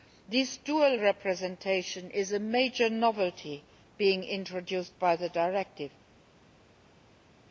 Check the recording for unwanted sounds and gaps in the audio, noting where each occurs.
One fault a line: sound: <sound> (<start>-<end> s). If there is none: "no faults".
no faults